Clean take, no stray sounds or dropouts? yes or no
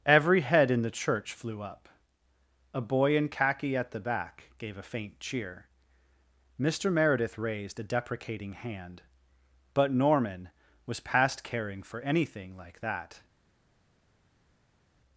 yes